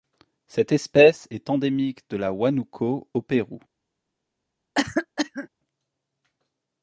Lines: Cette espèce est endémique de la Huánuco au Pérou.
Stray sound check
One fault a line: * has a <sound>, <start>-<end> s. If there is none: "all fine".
* has a cough, 4.7-5.5 s